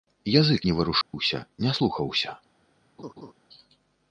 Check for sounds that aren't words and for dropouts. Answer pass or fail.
fail